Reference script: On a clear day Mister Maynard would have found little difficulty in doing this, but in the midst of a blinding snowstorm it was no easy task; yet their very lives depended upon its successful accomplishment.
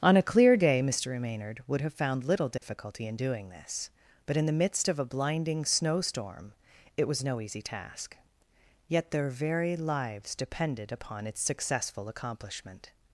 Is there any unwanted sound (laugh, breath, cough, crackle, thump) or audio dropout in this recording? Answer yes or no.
yes